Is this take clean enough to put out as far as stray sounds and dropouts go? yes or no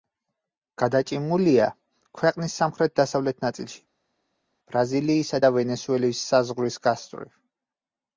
yes